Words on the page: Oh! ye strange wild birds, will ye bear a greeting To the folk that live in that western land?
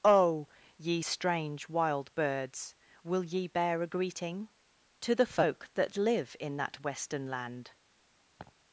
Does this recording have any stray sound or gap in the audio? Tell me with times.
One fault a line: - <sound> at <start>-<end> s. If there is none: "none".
- laugh at 8.4-8.5 s